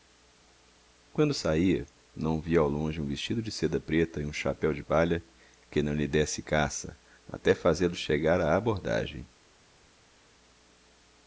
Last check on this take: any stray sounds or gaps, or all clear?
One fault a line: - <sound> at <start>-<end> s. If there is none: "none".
none